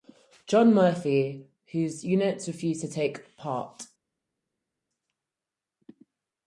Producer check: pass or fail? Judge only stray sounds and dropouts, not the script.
pass